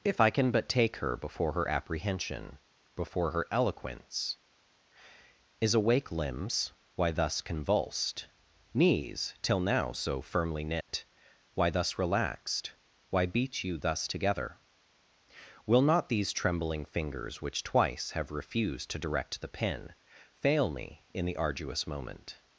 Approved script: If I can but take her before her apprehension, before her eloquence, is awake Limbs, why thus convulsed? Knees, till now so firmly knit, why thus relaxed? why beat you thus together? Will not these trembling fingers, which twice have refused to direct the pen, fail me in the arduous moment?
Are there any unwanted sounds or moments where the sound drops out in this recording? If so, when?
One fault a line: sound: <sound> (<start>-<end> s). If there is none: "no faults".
sound: dropout (10.8-10.9 s)